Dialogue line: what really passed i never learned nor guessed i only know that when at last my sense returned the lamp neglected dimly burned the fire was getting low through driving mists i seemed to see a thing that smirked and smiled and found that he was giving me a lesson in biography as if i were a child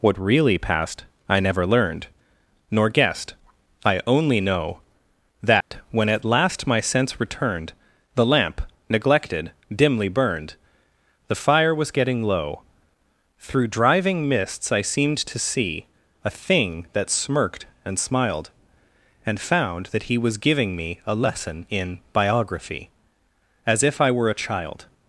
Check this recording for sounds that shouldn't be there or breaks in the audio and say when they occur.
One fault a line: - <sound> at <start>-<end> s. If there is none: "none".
- dropout at 5.6-5.7 s